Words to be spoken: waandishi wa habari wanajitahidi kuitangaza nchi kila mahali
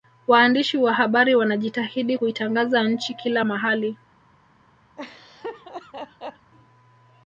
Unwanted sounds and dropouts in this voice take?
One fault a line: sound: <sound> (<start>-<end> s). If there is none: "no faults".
sound: laugh (5.0-6.5 s)